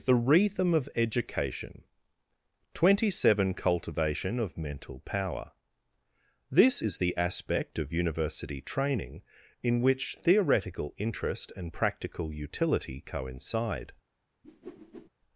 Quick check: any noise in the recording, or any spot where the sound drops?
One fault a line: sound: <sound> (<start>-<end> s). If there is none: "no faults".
sound: whoosh (14.4-15.1 s)